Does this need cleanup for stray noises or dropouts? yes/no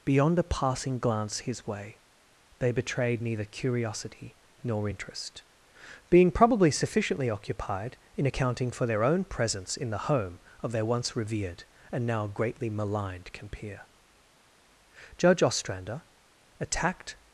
no